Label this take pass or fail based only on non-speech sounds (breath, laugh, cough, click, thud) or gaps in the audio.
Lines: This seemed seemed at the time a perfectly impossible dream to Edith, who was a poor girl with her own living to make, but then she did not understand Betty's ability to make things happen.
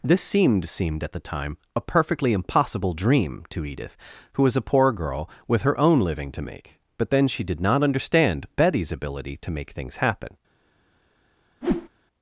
fail